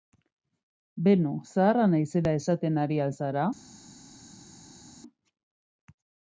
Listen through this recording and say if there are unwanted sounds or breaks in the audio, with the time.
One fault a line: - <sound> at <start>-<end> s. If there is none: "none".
none